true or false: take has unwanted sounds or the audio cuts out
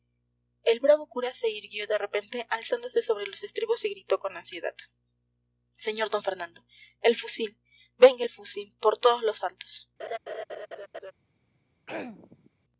true